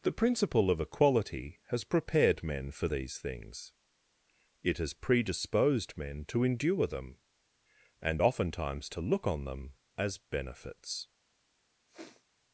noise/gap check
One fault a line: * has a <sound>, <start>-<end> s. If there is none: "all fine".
* has a sniff, 11.9-12.3 s